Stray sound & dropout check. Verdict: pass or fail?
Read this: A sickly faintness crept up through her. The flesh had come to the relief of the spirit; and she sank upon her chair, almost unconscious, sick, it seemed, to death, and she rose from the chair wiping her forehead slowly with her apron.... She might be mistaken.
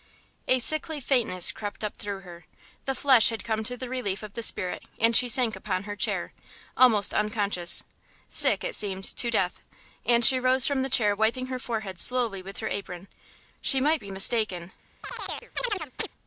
fail